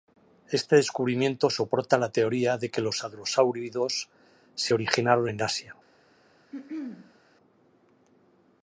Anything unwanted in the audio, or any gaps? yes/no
yes